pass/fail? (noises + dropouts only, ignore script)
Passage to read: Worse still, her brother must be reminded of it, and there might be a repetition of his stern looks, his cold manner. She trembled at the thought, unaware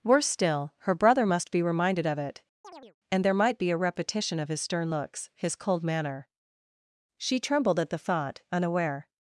fail